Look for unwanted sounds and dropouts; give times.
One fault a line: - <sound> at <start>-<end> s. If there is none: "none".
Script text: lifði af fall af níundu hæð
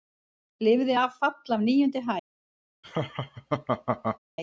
- laugh at 2.8-4.2 s